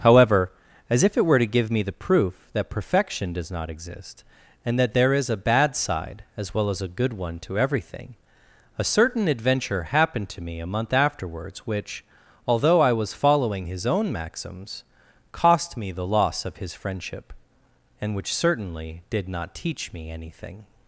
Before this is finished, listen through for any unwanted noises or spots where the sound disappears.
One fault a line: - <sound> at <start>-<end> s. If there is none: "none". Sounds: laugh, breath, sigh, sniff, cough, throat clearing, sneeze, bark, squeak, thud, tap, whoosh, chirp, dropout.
none